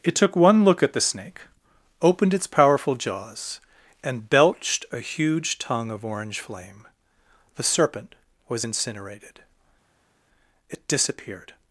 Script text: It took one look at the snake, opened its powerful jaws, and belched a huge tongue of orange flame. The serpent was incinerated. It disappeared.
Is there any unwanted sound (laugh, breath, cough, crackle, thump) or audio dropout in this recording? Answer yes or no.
no